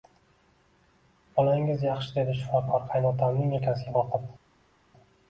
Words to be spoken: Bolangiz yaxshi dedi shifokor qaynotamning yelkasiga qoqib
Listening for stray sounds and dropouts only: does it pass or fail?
pass